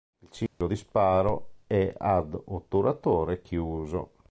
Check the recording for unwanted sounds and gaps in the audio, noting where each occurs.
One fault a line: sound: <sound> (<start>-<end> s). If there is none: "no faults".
sound: dropout (0.5-0.6 s)